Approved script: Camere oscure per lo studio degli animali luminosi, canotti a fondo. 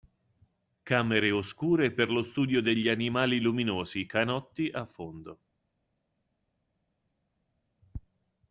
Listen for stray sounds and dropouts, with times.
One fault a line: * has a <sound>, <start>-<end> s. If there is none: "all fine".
all fine